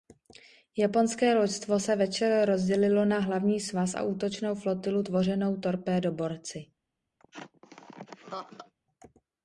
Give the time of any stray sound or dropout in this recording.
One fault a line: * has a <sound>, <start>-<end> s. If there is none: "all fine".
* has a laugh, 7.2-8.7 s